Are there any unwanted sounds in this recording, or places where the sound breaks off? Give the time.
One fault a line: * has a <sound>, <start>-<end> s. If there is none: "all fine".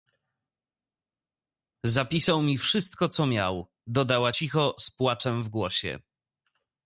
all fine